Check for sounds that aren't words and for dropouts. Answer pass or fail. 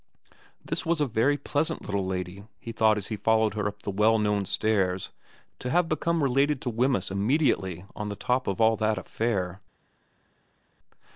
pass